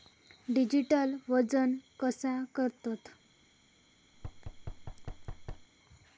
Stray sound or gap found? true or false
true